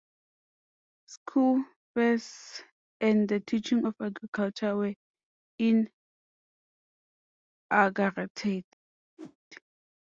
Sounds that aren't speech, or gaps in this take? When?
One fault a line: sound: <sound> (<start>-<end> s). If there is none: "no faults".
sound: whoosh (9.2-9.4 s)